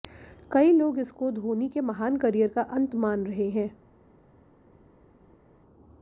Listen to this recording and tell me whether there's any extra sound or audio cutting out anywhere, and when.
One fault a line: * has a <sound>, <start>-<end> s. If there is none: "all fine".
all fine